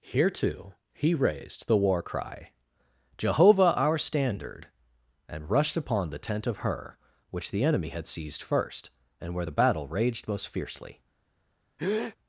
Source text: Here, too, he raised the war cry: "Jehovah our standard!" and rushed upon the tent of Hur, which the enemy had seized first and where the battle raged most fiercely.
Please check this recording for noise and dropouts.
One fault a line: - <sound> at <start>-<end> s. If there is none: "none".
- breath at 11.8-12.2 s